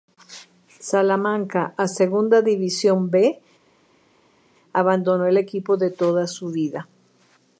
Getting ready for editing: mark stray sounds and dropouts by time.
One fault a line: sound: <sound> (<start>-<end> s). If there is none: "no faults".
no faults